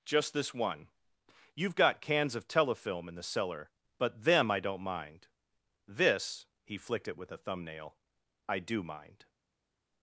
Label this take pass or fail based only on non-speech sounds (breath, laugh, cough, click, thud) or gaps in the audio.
pass